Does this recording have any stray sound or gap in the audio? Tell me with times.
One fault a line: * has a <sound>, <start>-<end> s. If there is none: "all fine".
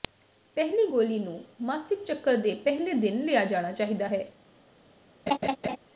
* has a laugh, 5.3-5.8 s